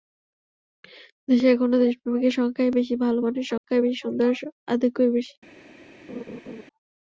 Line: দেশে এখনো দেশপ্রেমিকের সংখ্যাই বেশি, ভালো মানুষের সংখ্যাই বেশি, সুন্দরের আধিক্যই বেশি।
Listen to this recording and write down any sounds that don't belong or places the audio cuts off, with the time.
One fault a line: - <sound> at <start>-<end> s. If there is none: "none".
- dropout at 3.6-3.6 s
- laugh at 6.1-6.6 s